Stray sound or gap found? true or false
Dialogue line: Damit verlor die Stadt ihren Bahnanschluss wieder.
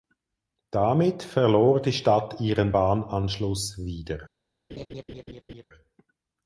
true